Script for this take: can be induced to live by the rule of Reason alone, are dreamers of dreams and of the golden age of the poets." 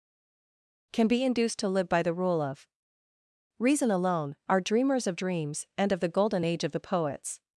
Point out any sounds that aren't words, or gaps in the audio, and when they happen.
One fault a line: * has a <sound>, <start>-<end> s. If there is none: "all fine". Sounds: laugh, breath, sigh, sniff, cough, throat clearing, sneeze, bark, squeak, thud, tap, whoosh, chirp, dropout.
all fine